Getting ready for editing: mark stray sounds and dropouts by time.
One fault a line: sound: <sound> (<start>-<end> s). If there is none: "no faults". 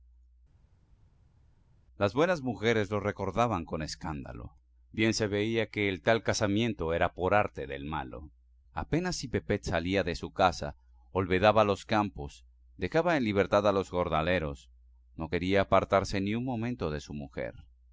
no faults